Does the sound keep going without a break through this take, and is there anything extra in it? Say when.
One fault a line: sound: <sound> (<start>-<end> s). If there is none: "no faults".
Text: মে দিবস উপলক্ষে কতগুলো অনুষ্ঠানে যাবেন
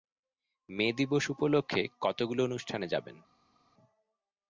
no faults